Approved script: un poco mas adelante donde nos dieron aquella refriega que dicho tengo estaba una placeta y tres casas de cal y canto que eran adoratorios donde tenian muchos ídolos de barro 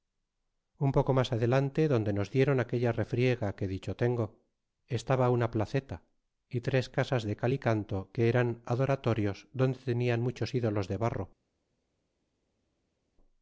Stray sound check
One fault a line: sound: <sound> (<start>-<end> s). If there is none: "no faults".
no faults